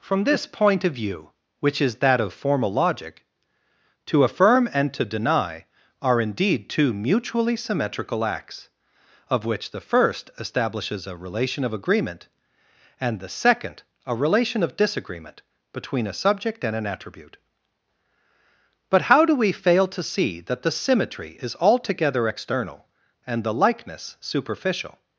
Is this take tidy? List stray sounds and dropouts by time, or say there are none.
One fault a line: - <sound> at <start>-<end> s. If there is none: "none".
none